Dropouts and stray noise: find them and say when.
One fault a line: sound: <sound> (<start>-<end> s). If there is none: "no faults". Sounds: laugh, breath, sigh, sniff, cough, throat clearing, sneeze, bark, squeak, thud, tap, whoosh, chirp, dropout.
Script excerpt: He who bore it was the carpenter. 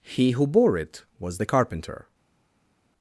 no faults